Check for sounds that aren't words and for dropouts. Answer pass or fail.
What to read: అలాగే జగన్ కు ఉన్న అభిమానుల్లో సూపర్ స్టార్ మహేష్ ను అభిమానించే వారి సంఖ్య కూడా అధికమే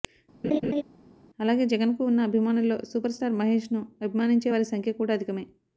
fail